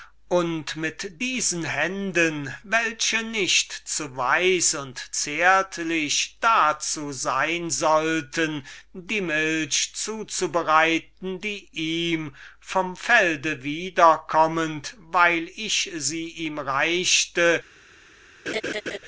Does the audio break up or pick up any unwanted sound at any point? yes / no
yes